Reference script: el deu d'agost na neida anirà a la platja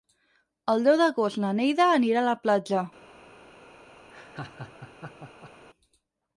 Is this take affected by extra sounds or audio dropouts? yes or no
yes